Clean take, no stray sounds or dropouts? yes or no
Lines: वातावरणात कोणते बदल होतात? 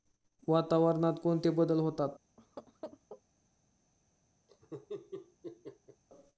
no